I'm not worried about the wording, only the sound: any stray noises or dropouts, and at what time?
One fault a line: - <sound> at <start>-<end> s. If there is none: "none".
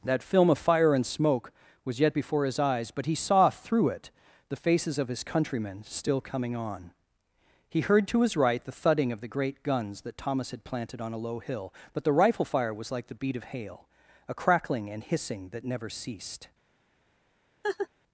- laugh at 17.6-17.9 s